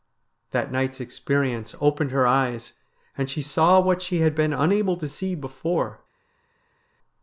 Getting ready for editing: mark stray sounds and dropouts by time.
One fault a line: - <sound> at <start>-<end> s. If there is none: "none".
none